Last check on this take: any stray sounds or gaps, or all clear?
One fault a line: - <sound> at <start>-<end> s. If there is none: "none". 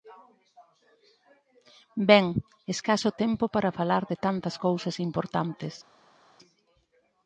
none